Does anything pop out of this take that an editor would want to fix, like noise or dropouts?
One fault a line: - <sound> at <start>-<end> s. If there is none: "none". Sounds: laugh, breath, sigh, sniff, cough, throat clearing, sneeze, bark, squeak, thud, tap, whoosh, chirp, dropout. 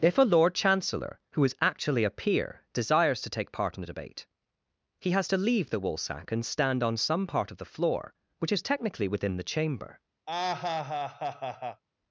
- laugh at 10.3-11.8 s